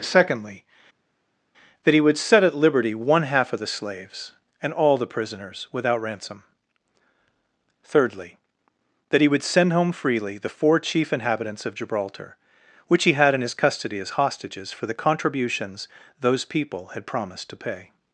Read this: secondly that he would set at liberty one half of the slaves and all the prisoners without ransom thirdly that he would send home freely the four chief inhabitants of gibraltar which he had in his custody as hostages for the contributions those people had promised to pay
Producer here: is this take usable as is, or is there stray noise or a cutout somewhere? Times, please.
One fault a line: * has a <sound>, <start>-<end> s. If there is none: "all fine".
all fine